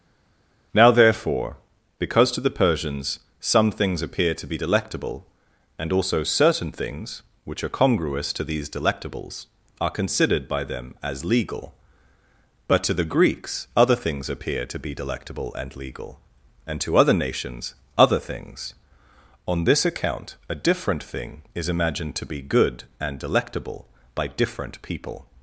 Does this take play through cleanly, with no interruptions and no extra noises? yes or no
yes